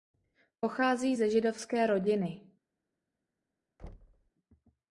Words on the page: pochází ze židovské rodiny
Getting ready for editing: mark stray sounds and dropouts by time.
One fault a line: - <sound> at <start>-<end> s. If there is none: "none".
- thud at 3.8-4.3 s